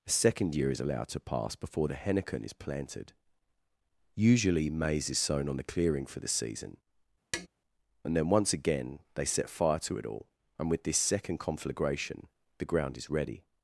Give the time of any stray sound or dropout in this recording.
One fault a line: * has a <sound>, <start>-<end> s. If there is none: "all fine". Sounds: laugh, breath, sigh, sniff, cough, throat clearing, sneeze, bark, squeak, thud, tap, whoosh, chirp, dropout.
* has a tap, 7.3-7.5 s